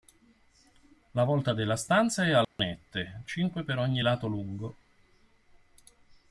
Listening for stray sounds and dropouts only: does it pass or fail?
fail